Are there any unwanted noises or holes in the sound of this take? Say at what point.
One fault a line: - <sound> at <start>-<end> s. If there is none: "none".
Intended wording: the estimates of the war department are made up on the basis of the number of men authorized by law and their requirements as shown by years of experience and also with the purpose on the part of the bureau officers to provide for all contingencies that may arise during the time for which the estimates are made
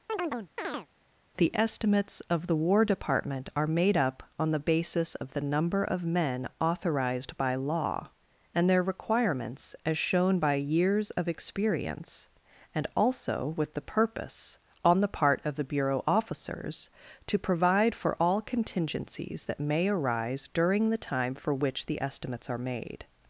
- chirp at 0.1-0.9 s